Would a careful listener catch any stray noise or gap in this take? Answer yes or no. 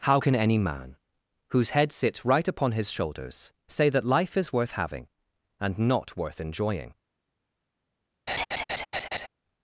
yes